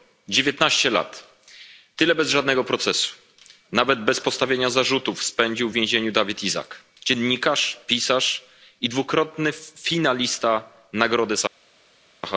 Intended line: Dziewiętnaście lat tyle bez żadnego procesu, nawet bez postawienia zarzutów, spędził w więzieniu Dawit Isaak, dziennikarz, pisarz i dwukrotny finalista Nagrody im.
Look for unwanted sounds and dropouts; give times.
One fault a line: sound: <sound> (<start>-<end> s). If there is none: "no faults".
no faults